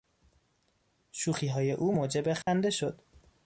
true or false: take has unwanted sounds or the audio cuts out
true